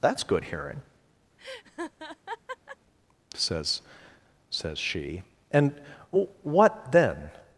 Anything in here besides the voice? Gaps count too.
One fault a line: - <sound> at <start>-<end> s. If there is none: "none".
- laugh at 1.4-2.8 s